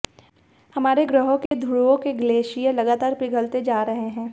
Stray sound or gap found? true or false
true